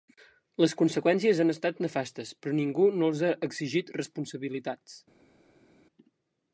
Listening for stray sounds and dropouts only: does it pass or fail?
pass